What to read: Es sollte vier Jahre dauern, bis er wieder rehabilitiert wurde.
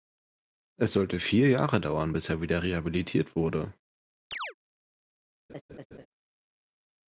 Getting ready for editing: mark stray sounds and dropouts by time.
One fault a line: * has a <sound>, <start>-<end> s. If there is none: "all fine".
* has a chirp, 4.3-4.5 s
* has a laugh, 5.5-6.1 s